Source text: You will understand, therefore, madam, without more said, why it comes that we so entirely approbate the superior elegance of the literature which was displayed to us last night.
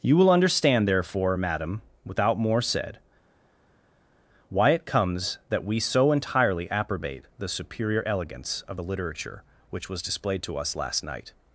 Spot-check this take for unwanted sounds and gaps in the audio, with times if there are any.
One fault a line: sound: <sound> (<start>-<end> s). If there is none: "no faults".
no faults